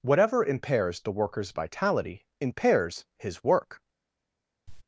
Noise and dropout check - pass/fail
fail